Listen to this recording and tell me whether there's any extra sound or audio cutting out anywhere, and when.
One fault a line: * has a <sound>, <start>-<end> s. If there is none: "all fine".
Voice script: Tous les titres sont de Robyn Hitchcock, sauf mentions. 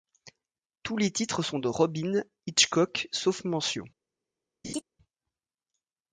* has a laugh, 4.6-4.8 s